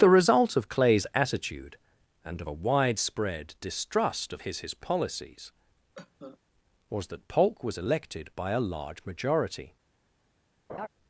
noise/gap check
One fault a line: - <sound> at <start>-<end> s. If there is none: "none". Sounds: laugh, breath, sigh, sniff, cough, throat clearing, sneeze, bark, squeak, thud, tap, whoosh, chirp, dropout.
- cough at 5.9-6.4 s
- laugh at 10.7-10.9 s